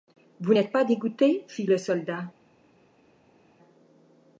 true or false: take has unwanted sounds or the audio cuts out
false